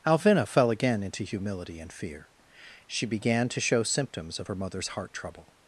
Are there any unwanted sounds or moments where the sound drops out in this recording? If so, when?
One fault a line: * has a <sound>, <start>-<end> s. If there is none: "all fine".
all fine